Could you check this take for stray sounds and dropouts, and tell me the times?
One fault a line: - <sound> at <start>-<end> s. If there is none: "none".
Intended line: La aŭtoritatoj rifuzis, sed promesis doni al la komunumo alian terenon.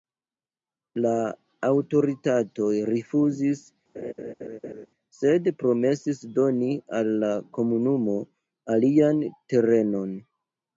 - laugh at 3.9-4.9 s